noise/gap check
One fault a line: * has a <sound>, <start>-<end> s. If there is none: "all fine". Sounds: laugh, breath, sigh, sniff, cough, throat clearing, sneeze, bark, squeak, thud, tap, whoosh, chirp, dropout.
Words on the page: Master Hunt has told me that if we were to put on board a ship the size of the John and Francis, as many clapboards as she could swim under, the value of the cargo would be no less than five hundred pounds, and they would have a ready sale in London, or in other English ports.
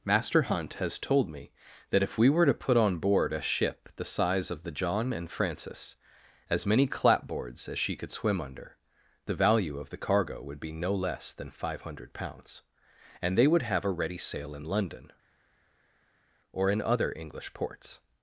all fine